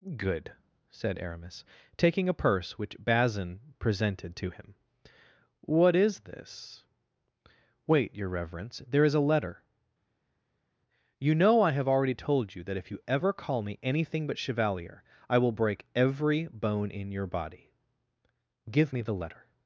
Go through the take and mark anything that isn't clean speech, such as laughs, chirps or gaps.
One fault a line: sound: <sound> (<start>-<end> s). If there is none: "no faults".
no faults